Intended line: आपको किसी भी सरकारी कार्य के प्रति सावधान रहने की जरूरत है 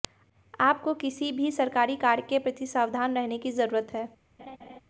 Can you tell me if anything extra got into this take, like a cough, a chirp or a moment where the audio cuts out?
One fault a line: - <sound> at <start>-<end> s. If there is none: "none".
- laugh at 4.4-4.8 s